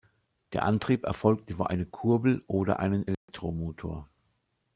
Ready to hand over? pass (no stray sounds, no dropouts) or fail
fail